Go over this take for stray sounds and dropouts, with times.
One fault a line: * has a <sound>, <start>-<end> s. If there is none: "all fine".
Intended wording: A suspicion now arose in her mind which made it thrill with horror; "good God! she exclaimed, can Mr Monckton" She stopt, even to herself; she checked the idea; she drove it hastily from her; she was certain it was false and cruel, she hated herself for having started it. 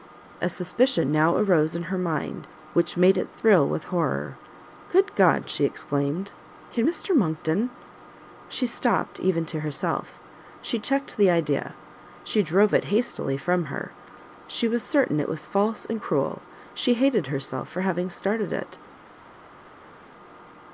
all fine